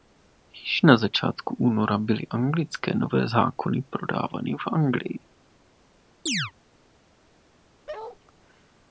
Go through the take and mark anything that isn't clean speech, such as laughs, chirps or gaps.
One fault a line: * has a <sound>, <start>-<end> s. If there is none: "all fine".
* has a chirp, 6.3-6.5 s
* has a bark, 7.9-8.2 s